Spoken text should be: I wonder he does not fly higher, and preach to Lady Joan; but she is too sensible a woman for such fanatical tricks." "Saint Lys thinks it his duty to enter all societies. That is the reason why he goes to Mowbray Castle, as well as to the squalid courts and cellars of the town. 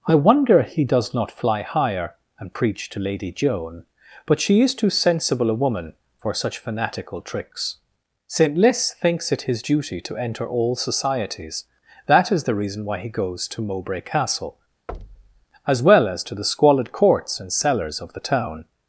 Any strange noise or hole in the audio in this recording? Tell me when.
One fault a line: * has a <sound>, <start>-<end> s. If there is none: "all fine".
* has a thud, 14.9-15.5 s